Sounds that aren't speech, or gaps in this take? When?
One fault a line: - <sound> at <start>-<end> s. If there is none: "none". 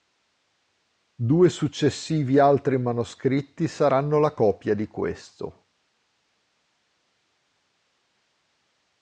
none